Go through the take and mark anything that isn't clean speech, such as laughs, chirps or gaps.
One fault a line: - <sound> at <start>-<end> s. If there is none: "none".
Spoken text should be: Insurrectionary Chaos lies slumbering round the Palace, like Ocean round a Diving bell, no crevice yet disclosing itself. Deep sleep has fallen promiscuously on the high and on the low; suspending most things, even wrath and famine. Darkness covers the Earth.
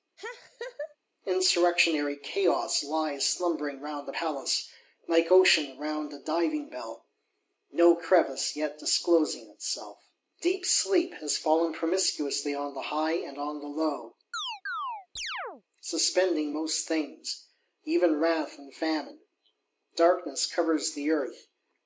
- laugh at 0.2-1.0 s
- chirp at 14.3-15.6 s